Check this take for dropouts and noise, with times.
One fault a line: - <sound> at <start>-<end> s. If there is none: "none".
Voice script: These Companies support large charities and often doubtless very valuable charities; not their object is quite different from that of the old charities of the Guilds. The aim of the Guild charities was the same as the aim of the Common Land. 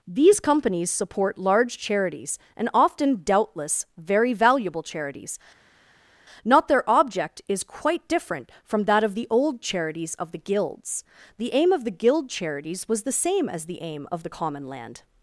none